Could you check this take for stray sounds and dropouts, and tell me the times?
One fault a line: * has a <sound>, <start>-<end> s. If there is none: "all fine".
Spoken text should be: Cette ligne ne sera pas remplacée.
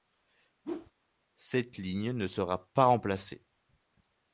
* has a whoosh, 0.6-0.9 s